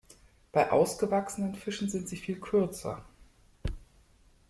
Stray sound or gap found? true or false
false